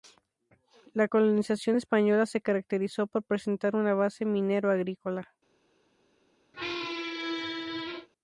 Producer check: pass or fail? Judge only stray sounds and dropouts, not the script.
fail